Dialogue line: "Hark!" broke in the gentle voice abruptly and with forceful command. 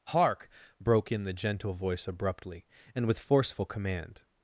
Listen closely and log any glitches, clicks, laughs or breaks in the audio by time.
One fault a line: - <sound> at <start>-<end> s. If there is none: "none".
none